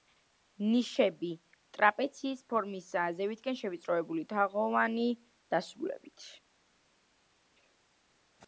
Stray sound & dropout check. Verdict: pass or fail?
pass